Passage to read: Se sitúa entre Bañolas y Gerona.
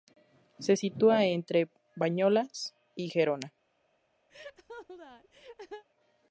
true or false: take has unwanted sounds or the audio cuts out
true